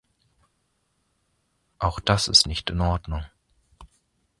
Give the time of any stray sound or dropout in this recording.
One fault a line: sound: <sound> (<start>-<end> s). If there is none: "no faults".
no faults